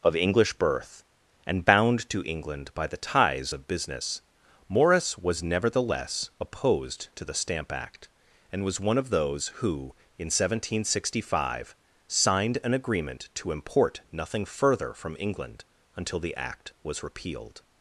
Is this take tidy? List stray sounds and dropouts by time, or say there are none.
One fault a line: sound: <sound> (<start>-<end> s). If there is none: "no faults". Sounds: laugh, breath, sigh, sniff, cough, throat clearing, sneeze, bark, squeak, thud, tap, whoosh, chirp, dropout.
no faults